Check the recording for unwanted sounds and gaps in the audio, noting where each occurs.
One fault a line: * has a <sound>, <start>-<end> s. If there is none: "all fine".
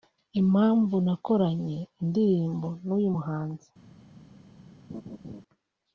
* has a laugh, 4.9-5.4 s